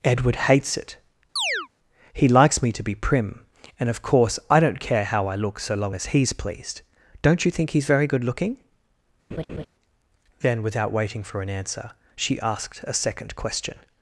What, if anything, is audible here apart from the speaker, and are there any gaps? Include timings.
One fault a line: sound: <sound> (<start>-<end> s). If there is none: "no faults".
sound: chirp (1.4-1.7 s)
sound: laugh (9.3-9.7 s)